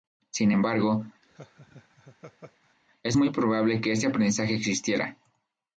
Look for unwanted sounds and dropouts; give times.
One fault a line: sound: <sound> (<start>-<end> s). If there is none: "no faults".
sound: laugh (1.2-2.8 s)